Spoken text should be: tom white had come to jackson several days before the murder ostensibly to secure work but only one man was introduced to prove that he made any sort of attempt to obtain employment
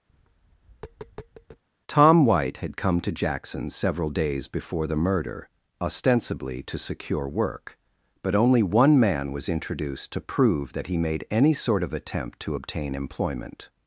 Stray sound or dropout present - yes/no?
yes